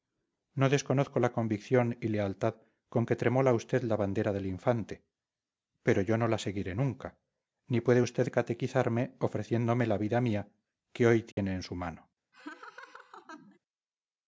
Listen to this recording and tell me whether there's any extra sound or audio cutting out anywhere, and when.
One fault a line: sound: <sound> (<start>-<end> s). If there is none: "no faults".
sound: dropout (11.3-11.4 s)
sound: laugh (12.3-13.6 s)